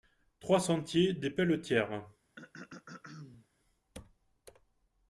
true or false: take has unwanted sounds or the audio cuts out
true